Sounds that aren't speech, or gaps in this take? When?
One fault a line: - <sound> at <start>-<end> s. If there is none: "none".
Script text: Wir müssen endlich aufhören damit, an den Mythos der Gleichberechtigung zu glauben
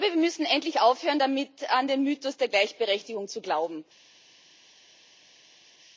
none